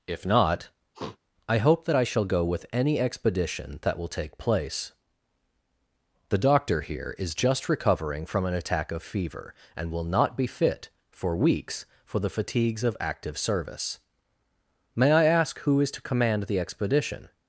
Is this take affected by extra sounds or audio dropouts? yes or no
yes